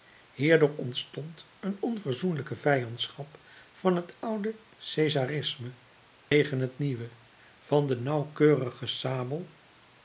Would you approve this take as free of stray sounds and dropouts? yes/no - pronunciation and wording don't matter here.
no